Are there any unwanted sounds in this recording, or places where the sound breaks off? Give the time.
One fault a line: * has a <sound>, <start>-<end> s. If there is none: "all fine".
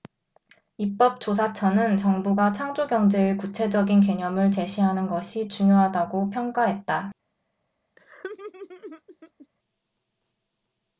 * has a laugh, 8.0-9.5 s